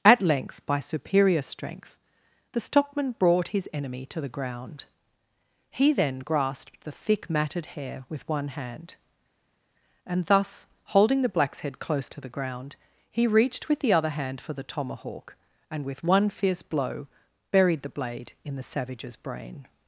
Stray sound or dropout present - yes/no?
no